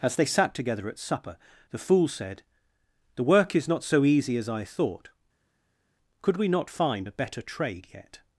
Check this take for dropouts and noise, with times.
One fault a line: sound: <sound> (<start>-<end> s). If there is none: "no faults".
no faults